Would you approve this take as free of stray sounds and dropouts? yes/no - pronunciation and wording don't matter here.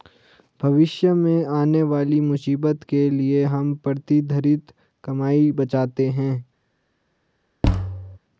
no